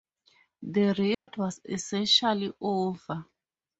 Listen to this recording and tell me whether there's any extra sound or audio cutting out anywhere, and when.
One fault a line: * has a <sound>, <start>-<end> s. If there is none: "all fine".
* has a dropout, 1.1-1.3 s